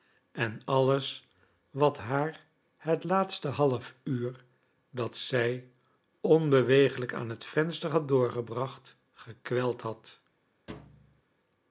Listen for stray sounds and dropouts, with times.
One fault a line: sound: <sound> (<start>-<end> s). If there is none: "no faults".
sound: thud (10.7-11.2 s)